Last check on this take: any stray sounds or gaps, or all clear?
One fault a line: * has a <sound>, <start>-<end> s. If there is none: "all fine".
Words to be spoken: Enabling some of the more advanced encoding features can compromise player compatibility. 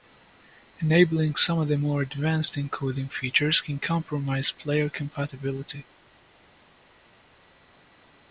all fine